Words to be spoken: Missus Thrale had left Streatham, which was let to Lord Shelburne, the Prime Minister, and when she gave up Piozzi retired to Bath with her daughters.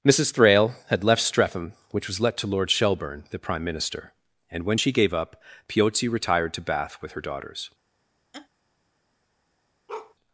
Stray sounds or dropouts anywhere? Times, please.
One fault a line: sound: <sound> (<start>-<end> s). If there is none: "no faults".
sound: laugh (8.3-8.5 s)
sound: bark (9.9-10.1 s)